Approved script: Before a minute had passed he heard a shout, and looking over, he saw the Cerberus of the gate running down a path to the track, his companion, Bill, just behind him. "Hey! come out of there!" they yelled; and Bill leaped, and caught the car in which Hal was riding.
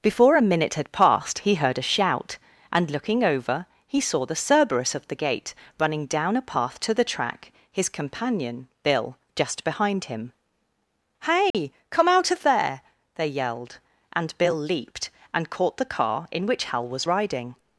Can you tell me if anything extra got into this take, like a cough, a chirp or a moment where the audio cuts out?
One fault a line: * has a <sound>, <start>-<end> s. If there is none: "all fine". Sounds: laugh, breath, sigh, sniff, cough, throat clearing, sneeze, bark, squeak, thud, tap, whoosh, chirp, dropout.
* has a dropout, 11.5-11.5 s